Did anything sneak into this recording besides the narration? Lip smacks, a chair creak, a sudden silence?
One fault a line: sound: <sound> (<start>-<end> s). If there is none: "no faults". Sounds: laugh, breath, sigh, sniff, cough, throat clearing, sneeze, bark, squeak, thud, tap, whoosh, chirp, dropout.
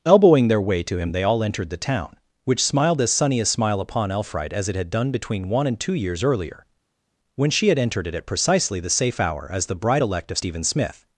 no faults